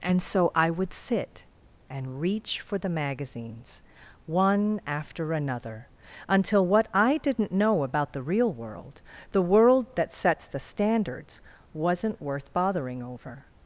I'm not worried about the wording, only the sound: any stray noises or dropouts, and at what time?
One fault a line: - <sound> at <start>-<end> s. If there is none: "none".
none